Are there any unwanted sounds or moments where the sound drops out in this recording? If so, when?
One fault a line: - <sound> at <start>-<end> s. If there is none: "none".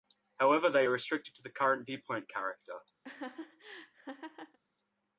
- laugh at 3.0-4.6 s